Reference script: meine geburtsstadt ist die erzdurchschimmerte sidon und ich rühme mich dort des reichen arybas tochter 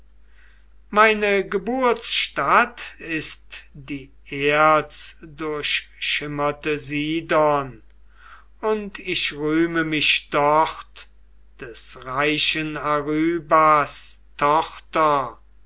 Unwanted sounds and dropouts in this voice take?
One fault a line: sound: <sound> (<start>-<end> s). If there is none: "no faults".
no faults